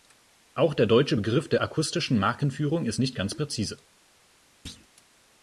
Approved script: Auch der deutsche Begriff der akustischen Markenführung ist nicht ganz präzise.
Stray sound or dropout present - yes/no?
yes